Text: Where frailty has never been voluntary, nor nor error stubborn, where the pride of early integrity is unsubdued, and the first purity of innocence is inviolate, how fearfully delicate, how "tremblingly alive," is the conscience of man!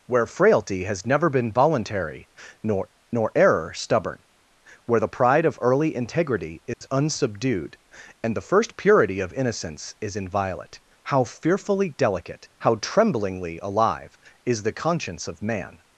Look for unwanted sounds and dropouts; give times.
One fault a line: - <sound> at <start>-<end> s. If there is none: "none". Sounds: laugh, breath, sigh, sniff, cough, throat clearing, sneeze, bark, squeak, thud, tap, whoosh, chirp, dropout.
- dropout at 6.7-6.8 s